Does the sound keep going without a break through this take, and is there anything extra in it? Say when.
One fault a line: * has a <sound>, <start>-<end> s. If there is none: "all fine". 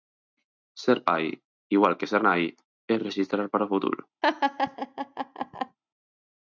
* has a laugh, 4.2-5.8 s